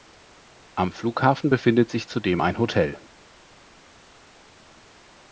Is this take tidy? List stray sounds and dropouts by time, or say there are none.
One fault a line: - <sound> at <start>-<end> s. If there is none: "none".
none